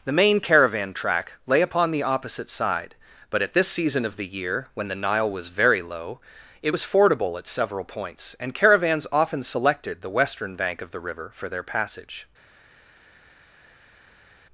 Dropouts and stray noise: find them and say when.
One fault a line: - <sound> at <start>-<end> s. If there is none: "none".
none